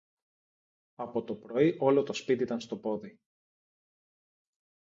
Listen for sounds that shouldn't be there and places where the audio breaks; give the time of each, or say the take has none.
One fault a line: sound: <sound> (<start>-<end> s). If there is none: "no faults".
no faults